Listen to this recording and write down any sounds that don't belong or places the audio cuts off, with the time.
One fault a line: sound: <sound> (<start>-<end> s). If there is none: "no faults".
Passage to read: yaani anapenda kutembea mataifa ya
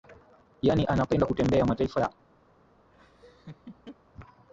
sound: laugh (2.9-4.0 s)